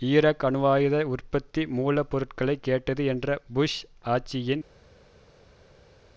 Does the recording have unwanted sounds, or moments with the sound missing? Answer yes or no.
no